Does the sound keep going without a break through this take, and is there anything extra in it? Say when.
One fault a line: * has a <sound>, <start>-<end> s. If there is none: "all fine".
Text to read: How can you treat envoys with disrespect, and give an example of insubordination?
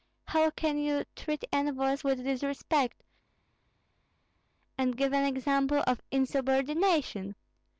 all fine